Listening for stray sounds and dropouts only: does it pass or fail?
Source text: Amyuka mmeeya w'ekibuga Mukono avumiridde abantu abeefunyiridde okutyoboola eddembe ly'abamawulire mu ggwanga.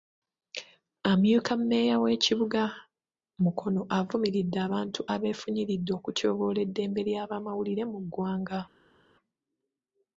pass